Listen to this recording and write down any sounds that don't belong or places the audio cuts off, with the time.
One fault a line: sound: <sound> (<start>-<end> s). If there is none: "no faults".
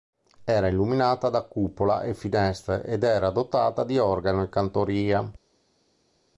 no faults